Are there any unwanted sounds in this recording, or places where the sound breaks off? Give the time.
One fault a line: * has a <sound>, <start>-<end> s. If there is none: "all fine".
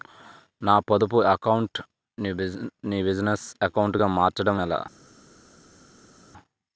all fine